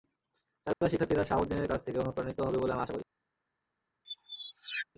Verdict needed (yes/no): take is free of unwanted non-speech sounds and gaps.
no